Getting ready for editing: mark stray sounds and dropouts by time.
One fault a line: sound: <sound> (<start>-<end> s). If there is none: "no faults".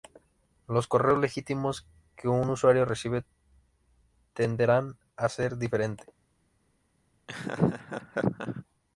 sound: laugh (7.3-8.6 s)